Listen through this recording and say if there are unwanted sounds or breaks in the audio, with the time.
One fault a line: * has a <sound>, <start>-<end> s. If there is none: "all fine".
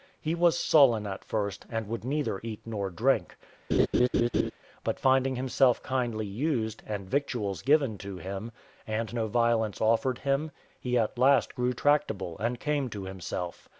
* has a laugh, 3.7-4.5 s